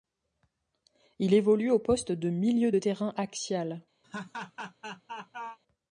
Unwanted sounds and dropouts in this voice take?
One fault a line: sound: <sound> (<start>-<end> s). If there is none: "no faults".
sound: laugh (4.0-5.6 s)